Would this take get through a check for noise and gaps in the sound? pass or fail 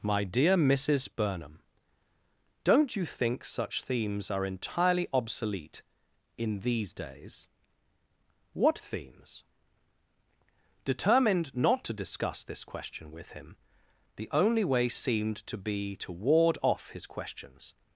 pass